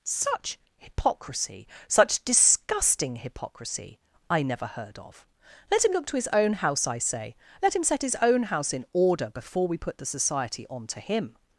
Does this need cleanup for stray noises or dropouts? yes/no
no